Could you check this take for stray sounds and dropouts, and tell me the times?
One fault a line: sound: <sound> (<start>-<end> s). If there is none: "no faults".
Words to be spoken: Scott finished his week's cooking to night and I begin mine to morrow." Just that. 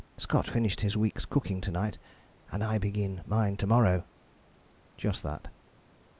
no faults